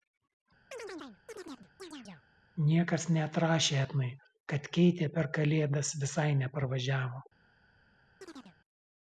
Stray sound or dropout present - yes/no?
yes